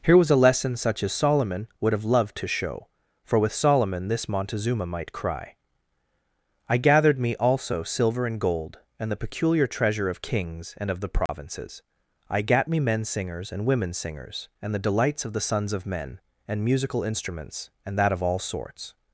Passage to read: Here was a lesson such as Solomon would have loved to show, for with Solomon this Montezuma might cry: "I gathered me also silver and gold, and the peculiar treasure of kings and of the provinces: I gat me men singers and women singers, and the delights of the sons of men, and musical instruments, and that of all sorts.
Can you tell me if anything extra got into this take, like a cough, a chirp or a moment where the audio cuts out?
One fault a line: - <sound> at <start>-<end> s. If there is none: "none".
- dropout at 11.3-11.3 s